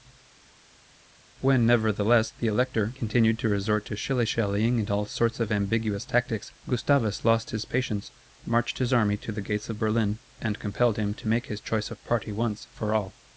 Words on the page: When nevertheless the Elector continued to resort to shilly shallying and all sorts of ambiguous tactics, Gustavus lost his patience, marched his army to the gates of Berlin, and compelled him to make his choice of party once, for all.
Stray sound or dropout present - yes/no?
no